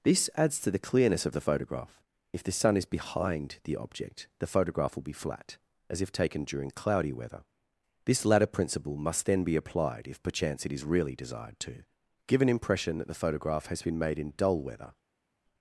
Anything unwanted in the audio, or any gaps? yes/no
no